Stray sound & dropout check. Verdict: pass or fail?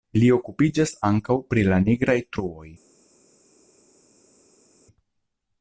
pass